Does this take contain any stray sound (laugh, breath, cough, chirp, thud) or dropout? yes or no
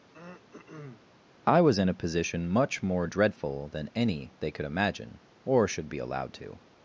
yes